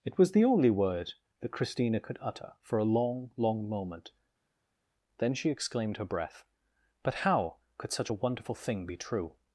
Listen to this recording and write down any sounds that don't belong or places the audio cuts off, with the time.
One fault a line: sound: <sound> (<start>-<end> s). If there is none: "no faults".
no faults